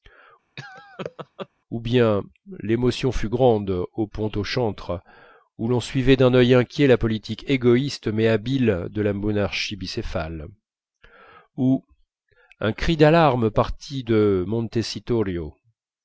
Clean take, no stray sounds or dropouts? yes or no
no